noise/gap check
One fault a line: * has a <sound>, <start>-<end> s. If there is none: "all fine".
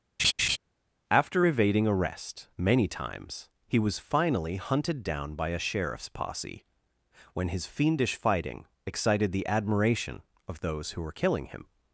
* has a laugh, 0.2-0.6 s